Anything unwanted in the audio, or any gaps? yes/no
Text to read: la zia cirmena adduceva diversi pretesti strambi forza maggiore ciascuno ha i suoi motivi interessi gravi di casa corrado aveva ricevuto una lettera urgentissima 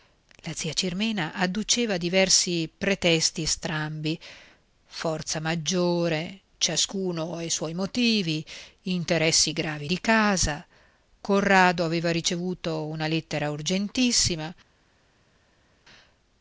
no